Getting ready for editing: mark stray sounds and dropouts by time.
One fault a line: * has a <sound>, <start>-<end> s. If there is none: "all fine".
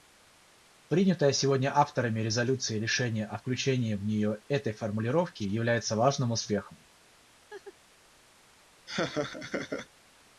* has a laugh, 7.5-7.8 s
* has a laugh, 8.9-9.9 s